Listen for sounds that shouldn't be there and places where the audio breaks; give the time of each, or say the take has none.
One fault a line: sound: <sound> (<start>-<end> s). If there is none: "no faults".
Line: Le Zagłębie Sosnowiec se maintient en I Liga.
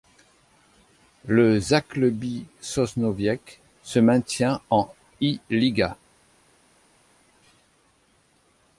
no faults